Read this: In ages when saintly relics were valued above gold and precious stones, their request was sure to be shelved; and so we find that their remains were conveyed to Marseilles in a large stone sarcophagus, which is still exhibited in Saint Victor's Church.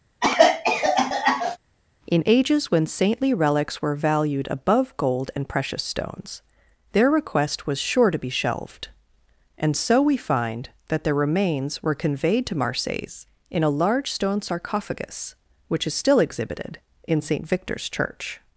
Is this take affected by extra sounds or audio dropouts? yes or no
yes